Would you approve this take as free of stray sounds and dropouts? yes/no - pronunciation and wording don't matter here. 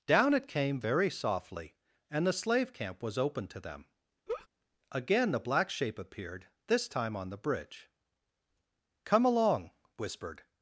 no